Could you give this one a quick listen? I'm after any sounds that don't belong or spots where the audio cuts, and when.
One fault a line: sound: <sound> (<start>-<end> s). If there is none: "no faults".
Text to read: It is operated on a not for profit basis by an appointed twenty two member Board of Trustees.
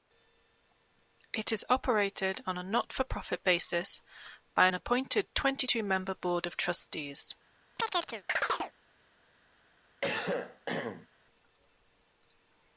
sound: chirp (7.8-8.7 s)
sound: cough (10.0-11.1 s)